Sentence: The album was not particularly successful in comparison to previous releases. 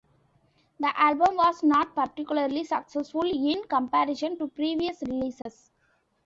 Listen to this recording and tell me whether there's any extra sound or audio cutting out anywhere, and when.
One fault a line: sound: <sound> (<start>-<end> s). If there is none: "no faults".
sound: dropout (5.4-5.5 s)